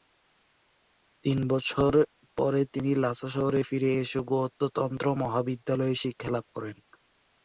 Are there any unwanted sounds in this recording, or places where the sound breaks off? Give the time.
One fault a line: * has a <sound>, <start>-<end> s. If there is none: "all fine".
all fine